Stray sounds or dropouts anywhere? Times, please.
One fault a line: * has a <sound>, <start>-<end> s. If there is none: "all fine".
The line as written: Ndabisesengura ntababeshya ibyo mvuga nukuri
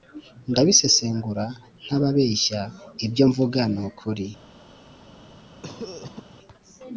* has a cough, 5.6-6.2 s